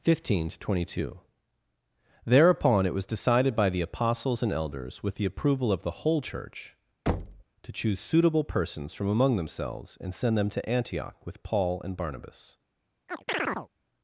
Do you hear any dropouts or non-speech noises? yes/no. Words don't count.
yes